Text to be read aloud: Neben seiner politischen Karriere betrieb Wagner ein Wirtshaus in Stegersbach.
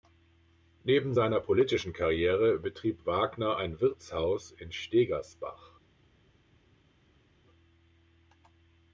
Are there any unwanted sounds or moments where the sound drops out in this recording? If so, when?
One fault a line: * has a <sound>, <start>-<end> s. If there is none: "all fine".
all fine